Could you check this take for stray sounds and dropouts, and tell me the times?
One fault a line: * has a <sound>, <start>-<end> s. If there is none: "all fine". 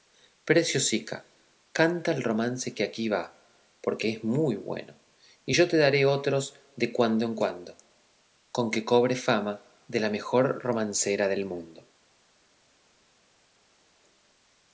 all fine